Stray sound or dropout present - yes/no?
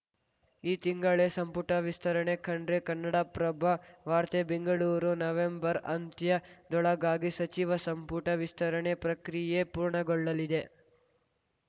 no